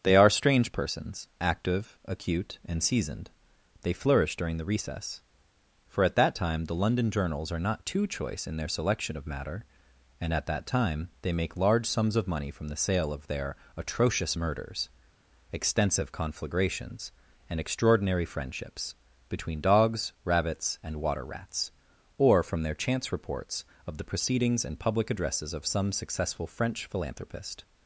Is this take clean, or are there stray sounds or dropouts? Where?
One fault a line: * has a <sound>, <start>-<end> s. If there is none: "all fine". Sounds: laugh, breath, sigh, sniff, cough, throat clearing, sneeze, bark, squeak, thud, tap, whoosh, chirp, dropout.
all fine